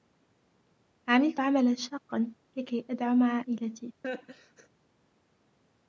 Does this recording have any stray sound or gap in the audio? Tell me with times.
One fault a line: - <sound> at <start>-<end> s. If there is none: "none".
- laugh at 4.0-4.7 s